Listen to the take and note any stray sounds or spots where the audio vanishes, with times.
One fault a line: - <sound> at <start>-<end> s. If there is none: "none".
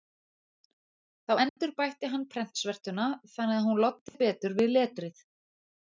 - dropout at 1.5-1.6 s
- dropout at 4.1-4.1 s